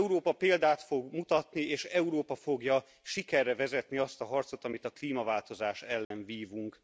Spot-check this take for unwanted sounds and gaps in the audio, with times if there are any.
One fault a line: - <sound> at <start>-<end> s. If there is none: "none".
- dropout at 6.0-6.1 s